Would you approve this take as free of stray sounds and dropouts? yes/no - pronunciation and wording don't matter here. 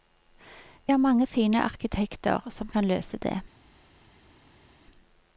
yes